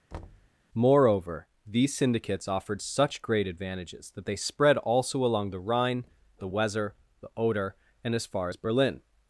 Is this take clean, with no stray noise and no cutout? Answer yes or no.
no